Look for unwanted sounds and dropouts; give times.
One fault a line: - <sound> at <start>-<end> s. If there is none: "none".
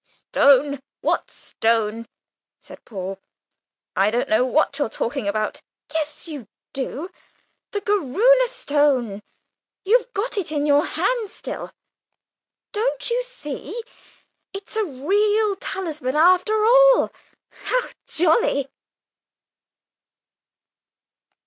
none